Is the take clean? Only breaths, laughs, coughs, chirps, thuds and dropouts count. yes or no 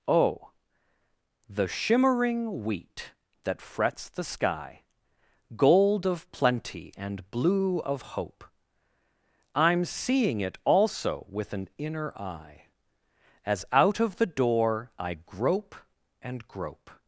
yes